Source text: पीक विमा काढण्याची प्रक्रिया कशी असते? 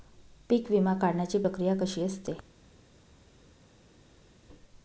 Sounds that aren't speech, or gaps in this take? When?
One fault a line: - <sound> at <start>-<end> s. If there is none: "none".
none